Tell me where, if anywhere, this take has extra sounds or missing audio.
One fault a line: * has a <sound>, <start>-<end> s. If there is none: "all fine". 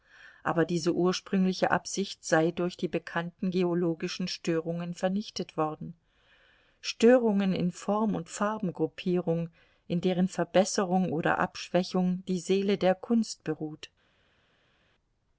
all fine